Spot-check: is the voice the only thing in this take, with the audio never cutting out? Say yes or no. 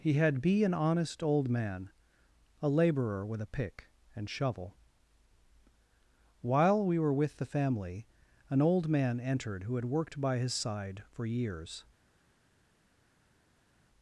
yes